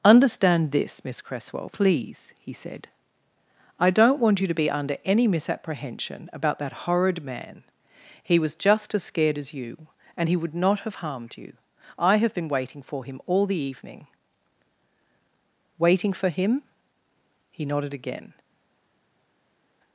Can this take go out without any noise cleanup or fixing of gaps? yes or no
yes